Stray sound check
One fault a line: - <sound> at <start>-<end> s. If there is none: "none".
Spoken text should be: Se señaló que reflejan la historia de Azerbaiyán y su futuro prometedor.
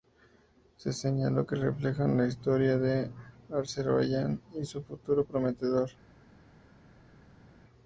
none